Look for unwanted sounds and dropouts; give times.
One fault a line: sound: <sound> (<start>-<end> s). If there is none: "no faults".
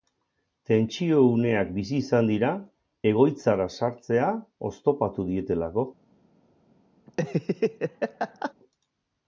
sound: laugh (7.1-8.5 s)